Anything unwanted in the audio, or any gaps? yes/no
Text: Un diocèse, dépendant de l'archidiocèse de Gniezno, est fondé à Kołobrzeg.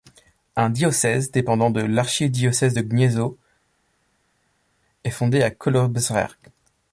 no